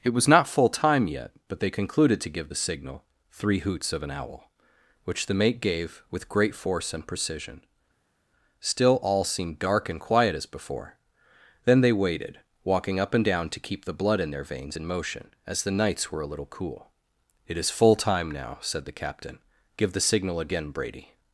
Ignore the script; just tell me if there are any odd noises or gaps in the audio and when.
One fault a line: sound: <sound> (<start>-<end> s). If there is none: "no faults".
no faults